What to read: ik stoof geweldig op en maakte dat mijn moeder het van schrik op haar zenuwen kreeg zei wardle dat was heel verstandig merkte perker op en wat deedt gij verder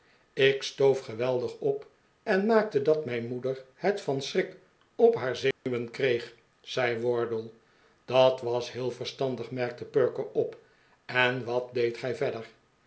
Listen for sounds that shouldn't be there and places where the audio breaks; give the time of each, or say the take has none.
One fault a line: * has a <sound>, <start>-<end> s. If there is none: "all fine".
* has a dropout, 5.5-5.7 s